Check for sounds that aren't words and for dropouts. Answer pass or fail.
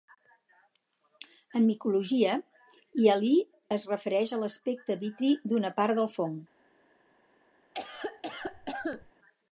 fail